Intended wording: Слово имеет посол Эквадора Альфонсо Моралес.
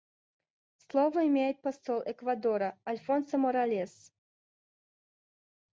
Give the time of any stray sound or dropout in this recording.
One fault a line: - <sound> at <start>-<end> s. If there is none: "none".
none